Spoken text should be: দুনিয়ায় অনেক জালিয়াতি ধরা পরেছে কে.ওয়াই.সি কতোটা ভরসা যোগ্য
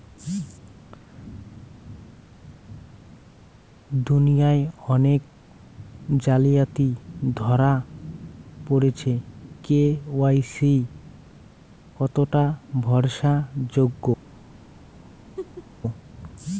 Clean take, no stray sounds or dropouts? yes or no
no